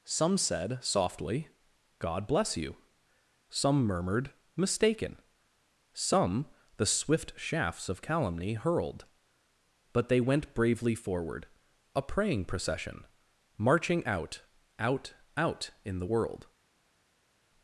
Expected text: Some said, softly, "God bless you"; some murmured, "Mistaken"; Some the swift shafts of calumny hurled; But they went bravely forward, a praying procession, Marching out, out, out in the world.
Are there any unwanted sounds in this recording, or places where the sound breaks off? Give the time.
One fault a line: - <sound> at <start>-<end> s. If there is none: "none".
none